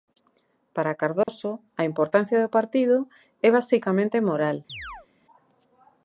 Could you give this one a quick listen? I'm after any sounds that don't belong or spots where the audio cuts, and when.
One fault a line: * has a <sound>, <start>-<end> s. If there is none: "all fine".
* has a dropout, 1.2-1.3 s
* has a chirp, 4.7-5.1 s